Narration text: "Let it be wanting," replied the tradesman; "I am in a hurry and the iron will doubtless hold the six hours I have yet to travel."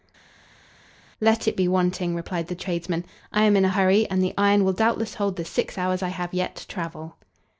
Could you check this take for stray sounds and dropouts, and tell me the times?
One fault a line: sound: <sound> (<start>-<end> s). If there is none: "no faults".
no faults